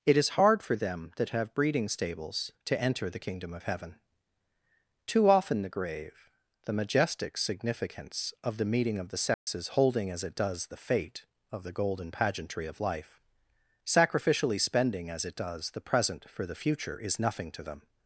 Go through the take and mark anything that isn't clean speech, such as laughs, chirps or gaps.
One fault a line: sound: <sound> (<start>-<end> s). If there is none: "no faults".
sound: dropout (9.3-9.5 s)